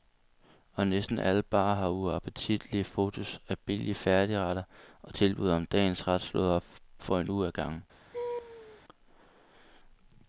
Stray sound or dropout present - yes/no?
yes